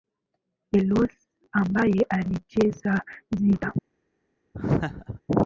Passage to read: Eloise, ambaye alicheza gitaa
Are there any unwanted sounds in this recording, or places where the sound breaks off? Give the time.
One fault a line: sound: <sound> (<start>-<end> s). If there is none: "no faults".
sound: laugh (4.5-5.2 s)